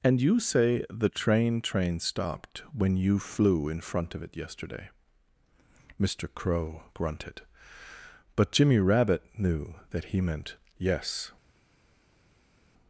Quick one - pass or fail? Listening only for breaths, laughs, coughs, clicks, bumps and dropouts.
pass